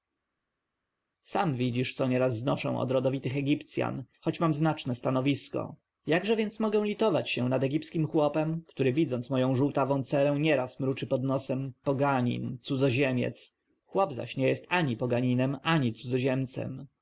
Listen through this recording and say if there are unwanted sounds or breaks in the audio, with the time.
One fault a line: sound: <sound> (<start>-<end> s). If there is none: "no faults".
no faults